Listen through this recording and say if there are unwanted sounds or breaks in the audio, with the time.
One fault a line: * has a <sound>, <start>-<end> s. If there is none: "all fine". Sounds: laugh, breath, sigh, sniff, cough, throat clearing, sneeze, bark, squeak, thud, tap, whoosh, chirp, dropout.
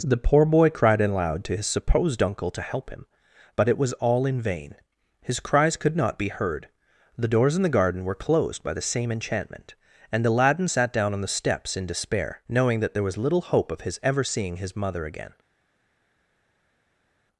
all fine